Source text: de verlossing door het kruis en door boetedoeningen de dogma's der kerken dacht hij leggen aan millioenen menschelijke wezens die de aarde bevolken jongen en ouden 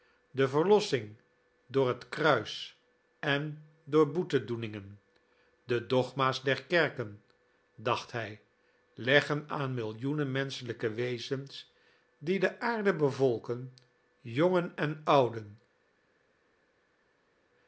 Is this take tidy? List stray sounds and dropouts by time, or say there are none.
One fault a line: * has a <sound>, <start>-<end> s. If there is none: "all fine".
all fine